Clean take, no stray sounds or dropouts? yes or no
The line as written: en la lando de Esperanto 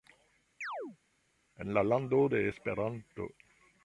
no